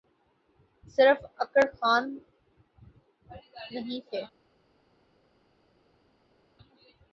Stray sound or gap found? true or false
false